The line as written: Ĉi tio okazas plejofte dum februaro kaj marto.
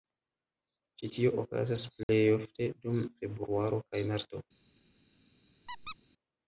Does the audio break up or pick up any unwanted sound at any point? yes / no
yes